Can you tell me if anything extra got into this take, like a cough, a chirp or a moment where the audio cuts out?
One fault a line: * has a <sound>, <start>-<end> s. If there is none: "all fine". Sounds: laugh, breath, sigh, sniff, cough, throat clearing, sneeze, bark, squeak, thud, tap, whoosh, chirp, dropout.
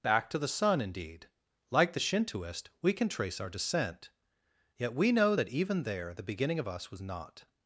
all fine